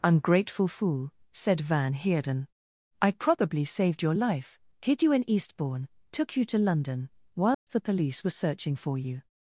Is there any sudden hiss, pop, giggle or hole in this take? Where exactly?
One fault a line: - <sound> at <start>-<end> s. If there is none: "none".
- dropout at 7.5-7.7 s